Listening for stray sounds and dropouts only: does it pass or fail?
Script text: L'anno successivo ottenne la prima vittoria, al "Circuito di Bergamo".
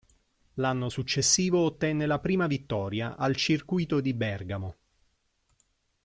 pass